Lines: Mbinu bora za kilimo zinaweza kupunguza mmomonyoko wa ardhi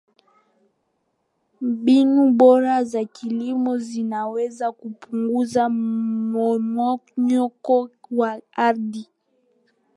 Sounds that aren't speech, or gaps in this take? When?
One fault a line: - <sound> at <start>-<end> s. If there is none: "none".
none